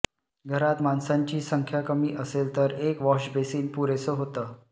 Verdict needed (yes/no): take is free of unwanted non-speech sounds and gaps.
yes